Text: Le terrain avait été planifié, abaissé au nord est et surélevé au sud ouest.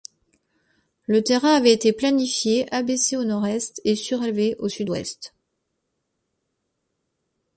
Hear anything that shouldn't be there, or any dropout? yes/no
no